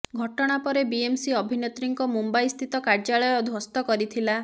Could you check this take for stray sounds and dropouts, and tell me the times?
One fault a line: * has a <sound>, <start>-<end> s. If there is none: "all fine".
all fine